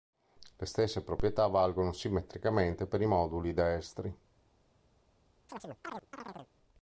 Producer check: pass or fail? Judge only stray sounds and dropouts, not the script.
fail